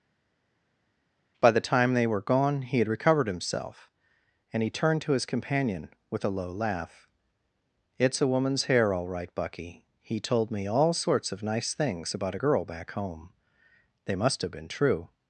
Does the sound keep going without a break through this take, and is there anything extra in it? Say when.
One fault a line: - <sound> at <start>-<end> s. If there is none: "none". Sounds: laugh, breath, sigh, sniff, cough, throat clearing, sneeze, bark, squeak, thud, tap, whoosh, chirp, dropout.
none